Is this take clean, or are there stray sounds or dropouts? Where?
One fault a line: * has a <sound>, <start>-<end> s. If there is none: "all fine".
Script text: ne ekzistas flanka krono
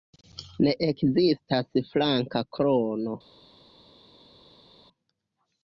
all fine